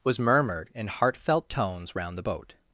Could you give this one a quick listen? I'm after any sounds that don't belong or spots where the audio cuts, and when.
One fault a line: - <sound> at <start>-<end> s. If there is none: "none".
none